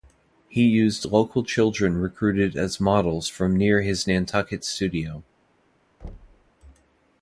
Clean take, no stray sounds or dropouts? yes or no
no